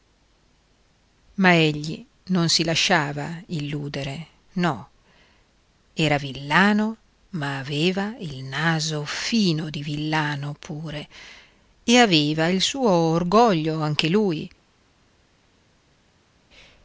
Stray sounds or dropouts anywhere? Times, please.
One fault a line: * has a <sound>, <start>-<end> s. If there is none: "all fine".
all fine